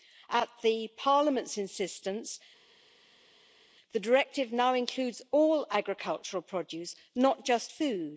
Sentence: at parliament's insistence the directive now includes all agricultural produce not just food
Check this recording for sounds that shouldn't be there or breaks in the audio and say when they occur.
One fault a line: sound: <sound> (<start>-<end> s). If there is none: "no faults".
no faults